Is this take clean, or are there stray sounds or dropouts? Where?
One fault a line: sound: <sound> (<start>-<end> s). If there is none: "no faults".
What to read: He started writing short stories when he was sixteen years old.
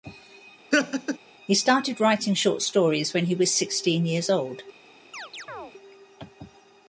sound: laugh (0.7-1.2 s)
sound: chirp (5.1-5.7 s)